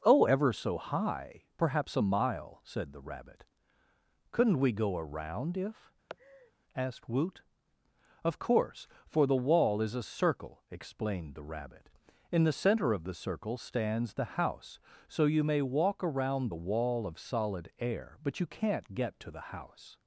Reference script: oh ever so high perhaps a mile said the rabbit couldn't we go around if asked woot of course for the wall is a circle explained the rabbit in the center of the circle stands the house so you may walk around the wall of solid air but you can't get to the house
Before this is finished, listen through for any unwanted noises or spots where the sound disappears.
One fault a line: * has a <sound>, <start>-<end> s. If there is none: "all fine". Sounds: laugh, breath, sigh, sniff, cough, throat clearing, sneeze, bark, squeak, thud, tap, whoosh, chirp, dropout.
* has a laugh, 6.1-6.5 s